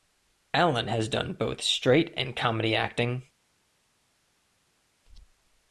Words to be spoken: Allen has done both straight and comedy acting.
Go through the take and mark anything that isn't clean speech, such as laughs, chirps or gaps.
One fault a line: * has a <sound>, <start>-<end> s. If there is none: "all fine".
all fine